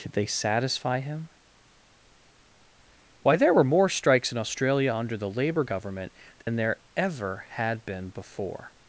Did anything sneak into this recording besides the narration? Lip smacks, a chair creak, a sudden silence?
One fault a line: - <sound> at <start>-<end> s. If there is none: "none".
- dropout at 6.4-6.5 s